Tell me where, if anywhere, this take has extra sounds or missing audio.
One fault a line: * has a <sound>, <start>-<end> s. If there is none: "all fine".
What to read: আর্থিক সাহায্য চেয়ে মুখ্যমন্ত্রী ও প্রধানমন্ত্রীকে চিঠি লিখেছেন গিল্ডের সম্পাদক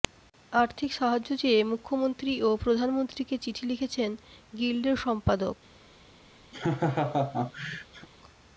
* has a laugh, 6.5-8.1 s